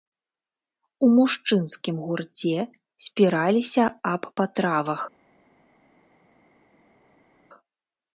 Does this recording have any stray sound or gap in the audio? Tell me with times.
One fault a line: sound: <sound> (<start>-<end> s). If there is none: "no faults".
no faults